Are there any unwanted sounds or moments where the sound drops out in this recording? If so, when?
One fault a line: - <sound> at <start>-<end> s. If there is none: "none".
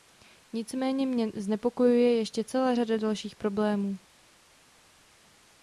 none